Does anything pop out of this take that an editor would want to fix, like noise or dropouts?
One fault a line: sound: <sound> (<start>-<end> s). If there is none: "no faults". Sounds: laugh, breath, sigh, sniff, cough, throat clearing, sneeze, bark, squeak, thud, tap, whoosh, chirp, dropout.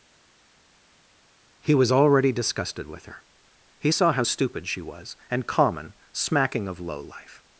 no faults